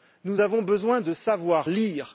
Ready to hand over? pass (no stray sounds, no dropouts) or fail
pass